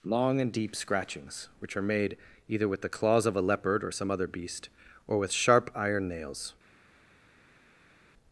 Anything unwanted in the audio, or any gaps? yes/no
no